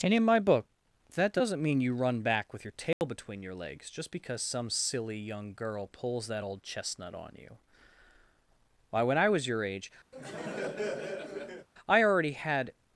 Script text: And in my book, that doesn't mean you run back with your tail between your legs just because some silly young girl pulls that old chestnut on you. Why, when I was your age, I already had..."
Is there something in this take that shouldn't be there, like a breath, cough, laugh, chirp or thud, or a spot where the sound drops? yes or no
yes